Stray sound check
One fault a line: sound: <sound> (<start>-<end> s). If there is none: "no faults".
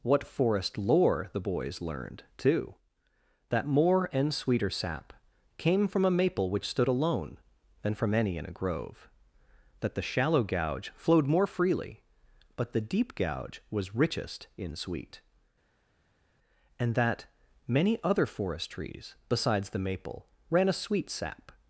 no faults